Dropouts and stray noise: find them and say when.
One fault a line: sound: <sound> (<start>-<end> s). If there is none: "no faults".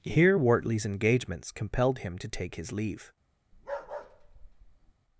sound: bark (3.5-4.9 s)